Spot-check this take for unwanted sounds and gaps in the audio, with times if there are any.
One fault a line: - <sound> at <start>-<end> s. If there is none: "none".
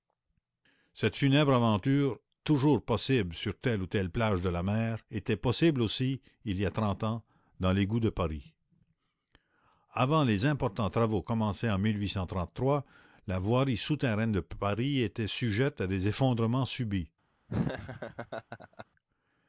- laugh at 17.5-18.9 s